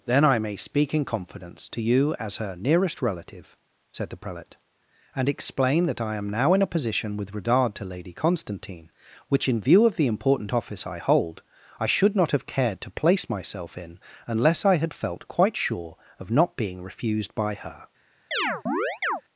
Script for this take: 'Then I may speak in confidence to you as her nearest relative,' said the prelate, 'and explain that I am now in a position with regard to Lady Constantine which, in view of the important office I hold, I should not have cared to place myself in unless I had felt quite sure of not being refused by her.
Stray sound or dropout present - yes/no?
yes